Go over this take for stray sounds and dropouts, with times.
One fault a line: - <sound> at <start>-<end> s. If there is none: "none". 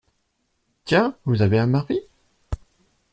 none